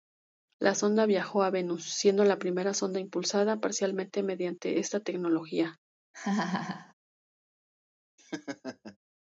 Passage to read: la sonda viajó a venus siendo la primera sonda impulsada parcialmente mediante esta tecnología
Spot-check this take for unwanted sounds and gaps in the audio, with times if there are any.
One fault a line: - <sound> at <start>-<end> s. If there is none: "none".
- laugh at 6.1-6.9 s
- laugh at 8.2-9.0 s